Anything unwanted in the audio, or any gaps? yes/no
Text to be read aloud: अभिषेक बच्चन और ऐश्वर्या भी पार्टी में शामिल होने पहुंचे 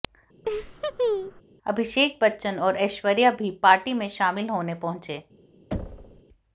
yes